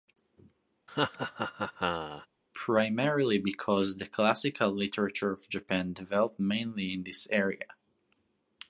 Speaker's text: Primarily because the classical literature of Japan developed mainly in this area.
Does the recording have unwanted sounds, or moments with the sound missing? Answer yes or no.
yes